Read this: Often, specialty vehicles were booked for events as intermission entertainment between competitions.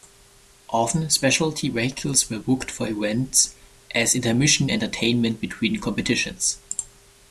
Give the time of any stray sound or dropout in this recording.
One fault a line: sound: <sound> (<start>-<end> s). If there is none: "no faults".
no faults